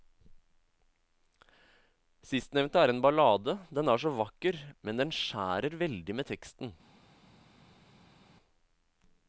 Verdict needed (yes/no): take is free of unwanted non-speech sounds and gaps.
yes